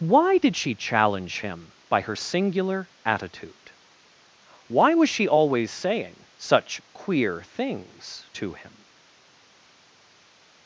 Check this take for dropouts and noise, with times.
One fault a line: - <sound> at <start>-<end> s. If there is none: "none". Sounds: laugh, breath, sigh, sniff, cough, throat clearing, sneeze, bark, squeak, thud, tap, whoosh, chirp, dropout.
none